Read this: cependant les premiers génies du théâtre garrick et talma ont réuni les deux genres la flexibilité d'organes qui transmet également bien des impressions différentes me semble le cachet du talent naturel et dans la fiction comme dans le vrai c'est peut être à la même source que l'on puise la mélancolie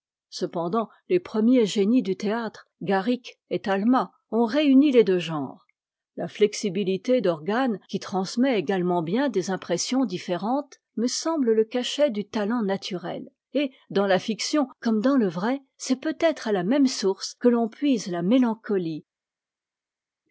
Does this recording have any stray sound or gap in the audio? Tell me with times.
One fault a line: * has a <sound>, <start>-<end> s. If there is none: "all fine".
all fine